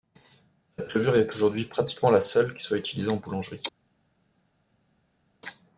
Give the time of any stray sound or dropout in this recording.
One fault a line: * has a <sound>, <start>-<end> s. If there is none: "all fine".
all fine